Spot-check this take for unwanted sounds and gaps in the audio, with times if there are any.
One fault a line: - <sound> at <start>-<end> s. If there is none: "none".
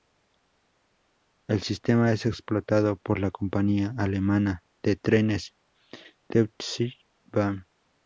none